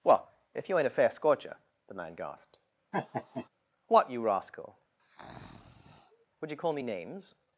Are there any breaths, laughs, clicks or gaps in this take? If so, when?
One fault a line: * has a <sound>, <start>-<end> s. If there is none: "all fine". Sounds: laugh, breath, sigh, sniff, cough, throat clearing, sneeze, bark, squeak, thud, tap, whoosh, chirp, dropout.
* has a laugh, 2.9-3.5 s
* has a breath, 5.0-6.3 s